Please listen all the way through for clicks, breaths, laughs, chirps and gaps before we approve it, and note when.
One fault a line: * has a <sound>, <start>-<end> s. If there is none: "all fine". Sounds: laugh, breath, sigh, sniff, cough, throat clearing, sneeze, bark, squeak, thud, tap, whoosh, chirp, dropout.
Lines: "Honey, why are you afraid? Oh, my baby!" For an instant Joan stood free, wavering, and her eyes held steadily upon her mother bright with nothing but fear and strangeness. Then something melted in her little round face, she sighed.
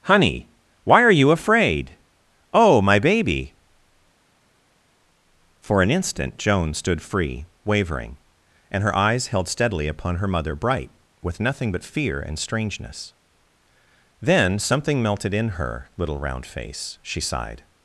all fine